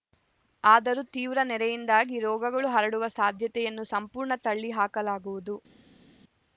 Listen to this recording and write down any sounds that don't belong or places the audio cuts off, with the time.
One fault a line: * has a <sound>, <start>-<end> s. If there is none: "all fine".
all fine